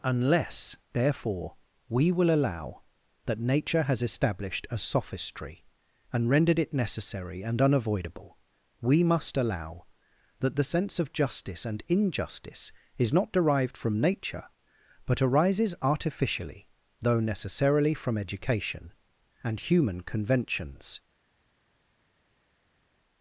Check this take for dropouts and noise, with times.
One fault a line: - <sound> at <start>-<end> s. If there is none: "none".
none